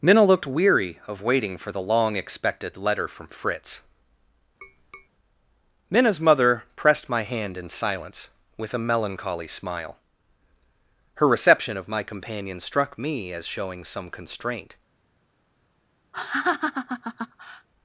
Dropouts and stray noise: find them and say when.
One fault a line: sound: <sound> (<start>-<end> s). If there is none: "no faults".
sound: tap (4.6-5.1 s)
sound: laugh (16.1-17.7 s)